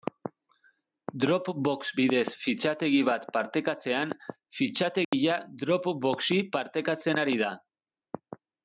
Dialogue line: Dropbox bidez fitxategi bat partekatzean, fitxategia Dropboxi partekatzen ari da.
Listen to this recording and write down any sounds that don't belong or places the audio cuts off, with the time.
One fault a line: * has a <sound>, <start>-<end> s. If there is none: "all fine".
* has a dropout, 5.0-5.1 s